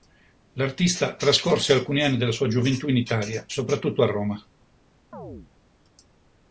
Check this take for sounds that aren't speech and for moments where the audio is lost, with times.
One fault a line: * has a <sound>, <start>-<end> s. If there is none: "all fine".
* has a chirp, 5.1-5.5 s